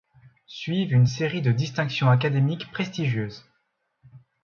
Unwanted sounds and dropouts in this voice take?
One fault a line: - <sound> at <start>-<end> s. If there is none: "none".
none